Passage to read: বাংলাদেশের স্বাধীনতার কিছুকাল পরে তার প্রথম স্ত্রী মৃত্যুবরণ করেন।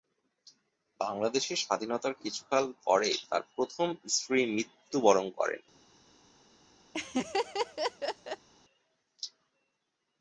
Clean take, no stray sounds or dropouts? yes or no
no